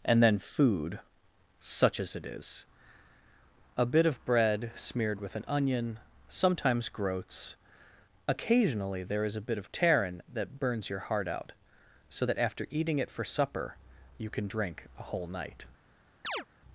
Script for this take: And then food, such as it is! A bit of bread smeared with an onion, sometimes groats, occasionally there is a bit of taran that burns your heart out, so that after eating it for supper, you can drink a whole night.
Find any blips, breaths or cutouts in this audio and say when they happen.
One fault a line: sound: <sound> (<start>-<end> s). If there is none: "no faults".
sound: chirp (16.2-16.5 s)